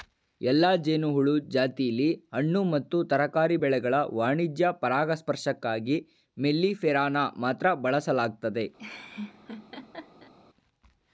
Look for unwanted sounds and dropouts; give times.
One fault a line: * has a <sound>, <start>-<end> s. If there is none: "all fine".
* has a laugh, 8.8-10.3 s